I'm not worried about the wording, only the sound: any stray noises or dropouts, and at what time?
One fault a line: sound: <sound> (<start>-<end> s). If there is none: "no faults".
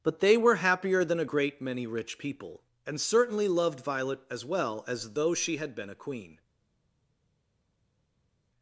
no faults